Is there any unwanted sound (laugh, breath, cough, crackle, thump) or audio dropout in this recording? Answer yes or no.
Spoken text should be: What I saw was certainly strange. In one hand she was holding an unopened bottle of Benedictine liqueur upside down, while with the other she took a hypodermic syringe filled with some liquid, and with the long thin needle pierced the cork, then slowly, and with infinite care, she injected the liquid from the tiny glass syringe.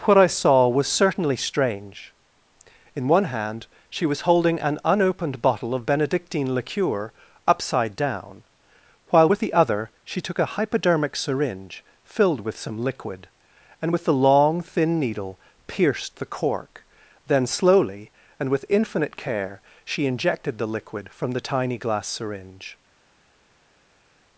no